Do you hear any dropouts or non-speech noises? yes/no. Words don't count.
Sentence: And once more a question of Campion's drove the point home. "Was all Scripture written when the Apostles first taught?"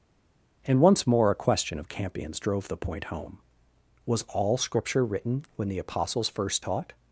no